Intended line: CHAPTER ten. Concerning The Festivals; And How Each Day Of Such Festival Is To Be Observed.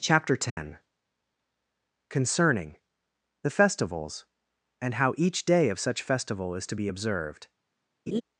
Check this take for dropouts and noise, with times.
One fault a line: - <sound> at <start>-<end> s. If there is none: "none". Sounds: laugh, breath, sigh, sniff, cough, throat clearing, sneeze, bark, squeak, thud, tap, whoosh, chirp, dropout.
- dropout at 0.5-0.6 s
- laugh at 8.1-8.2 s